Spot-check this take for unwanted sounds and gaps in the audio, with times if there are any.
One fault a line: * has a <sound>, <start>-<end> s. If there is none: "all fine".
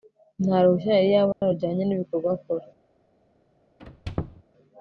* has a dropout, 1.3-1.4 s
* has a squeak, 3.8-4.4 s